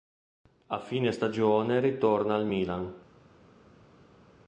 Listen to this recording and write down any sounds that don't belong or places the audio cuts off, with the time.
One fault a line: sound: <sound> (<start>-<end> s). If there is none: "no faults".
no faults